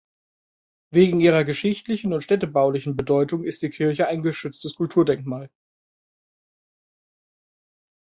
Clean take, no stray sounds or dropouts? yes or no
yes